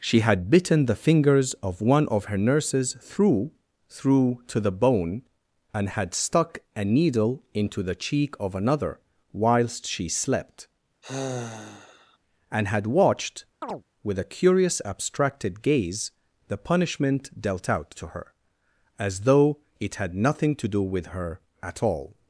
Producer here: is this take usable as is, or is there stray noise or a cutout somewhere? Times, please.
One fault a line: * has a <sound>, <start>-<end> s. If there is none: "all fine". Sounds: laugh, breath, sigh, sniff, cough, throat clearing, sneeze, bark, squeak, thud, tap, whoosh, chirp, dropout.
* has a sigh, 11.0-12.2 s
* has a chirp, 13.6-13.8 s